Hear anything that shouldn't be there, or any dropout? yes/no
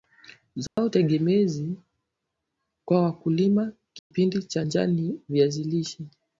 yes